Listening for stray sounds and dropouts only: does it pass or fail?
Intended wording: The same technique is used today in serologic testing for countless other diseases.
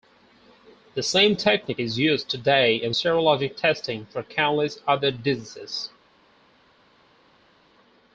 pass